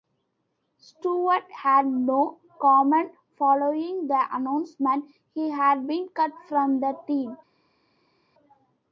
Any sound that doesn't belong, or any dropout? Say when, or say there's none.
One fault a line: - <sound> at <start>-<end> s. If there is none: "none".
none